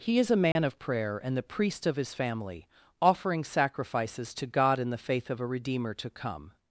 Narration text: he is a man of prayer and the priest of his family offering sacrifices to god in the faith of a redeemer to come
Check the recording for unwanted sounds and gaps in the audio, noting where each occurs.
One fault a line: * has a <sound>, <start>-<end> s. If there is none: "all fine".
* has a dropout, 0.5-0.6 s